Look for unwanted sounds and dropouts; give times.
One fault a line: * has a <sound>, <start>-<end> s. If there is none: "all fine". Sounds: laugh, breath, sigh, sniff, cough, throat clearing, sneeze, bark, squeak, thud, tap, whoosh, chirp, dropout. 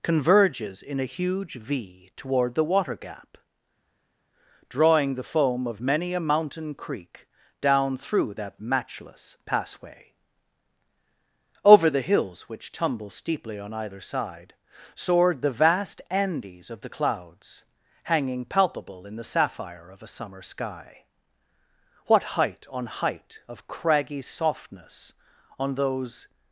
all fine